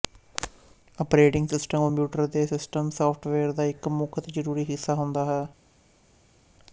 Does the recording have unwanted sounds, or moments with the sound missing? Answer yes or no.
no